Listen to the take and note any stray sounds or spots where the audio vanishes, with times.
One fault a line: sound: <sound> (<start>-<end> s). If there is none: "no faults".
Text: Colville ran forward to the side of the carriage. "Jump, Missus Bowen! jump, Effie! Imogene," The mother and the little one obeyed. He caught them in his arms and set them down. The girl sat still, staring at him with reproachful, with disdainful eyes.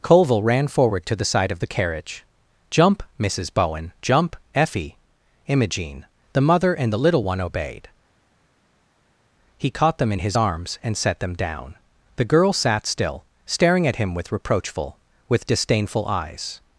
no faults